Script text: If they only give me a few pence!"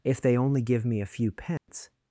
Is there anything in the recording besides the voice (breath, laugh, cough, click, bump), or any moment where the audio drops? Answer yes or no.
yes